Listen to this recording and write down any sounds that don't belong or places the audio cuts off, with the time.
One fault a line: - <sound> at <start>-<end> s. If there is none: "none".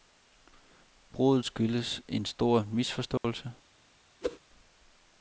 - dropout at 3.2-3.2 s
- whoosh at 4.2-4.4 s